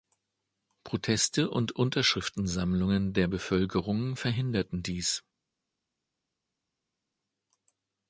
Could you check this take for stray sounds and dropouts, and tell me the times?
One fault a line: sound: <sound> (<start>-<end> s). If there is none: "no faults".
no faults